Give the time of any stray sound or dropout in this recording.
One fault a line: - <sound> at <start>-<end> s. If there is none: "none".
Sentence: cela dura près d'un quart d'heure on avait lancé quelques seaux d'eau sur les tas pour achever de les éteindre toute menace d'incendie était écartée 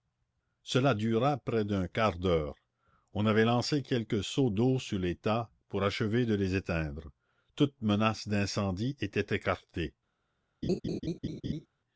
- laugh at 10.6-11.7 s